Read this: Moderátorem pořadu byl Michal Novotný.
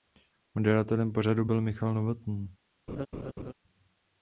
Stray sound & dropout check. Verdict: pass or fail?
fail